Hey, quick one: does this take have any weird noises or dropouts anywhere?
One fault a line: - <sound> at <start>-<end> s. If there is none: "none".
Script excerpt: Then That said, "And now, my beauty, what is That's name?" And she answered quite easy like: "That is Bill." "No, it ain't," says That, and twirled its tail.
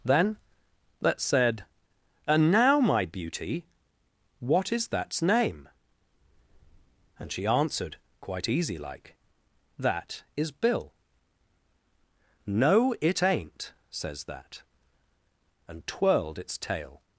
none